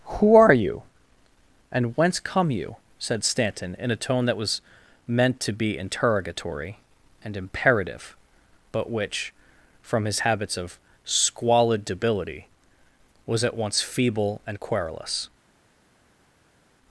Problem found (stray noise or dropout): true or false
false